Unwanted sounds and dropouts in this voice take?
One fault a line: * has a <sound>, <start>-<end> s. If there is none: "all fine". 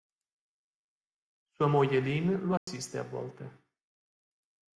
* has a dropout, 2.6-2.7 s